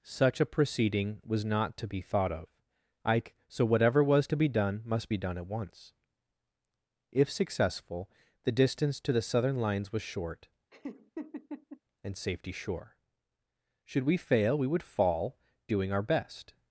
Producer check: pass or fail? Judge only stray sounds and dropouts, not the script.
fail